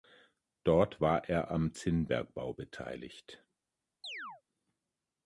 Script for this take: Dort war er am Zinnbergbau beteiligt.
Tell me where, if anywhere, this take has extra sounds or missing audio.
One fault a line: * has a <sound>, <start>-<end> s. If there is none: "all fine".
* has a chirp, 4.0-4.4 s